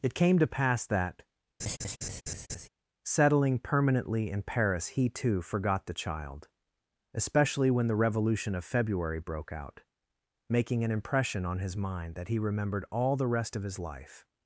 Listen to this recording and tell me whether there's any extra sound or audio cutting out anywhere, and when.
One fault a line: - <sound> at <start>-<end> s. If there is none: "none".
- laugh at 1.6-2.7 s